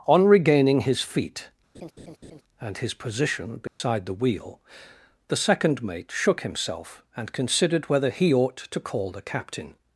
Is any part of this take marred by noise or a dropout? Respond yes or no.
yes